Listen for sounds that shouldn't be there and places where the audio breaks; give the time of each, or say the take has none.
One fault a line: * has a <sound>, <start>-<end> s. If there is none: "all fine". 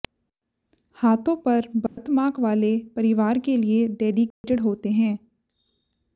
* has a dropout, 1.9-2.0 s
* has a dropout, 4.3-4.4 s